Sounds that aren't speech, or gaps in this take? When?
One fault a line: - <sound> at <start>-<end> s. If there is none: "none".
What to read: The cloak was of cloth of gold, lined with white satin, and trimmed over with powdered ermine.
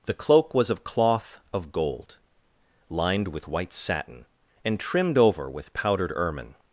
none